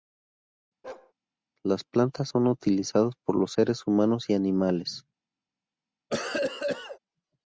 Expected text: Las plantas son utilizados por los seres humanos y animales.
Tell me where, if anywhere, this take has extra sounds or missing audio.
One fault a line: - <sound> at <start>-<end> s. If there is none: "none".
- bark at 0.8-1.1 s
- cough at 6.1-7.0 s